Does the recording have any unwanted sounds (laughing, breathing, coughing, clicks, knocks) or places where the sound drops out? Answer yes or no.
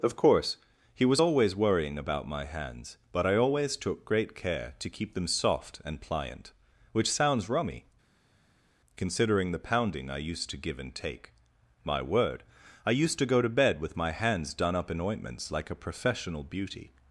no